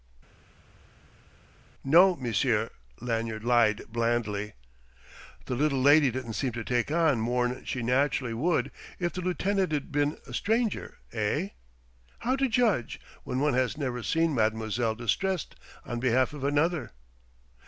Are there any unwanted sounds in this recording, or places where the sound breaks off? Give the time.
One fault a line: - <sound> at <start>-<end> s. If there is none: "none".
none